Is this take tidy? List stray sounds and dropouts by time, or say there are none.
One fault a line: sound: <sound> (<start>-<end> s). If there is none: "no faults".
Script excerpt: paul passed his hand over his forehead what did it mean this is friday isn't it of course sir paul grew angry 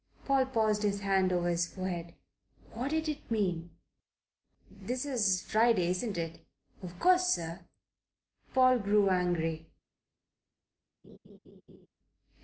sound: laugh (11.0-11.9 s)